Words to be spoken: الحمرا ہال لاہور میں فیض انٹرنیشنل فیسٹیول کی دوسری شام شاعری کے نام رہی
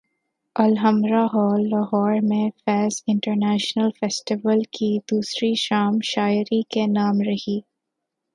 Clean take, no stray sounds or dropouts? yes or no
yes